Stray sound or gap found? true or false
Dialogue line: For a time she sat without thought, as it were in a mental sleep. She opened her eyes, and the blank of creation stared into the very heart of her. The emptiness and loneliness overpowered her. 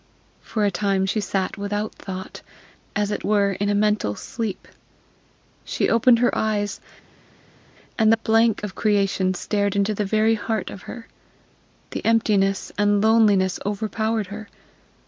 false